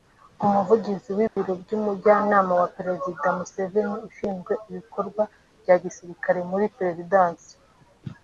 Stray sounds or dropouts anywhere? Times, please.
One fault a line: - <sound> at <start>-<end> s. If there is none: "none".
- dropout at 1.3-1.4 s